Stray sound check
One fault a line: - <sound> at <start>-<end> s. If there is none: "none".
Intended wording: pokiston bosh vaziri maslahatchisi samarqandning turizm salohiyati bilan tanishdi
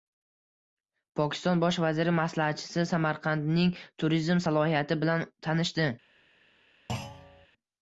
- thud at 6.9-7.5 s